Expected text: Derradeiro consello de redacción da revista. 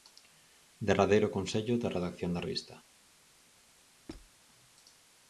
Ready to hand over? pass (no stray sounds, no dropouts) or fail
fail